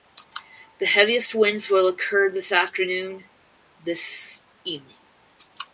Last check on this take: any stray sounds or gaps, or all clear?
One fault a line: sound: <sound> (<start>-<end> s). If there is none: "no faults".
no faults